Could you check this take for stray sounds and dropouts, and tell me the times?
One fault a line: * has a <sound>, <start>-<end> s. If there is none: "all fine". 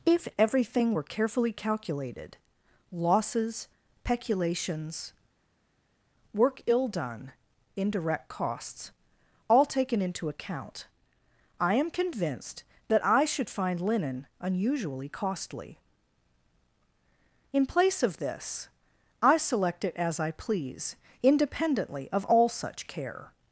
all fine